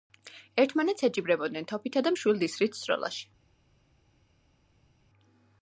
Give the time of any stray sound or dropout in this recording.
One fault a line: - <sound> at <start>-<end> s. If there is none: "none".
none